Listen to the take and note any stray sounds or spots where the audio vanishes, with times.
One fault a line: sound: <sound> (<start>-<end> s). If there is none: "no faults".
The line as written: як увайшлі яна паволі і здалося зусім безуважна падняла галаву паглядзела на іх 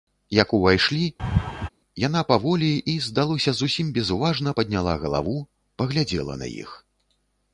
sound: laugh (1.2-1.7 s)